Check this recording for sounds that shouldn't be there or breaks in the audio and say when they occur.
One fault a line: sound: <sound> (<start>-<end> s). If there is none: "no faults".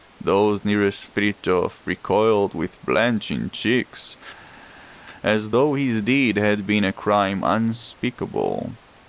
no faults